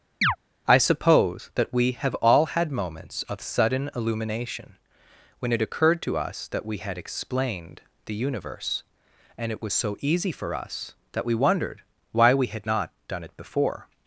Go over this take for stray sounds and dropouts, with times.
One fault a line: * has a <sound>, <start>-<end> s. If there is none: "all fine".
* has a chirp, 0.2-0.4 s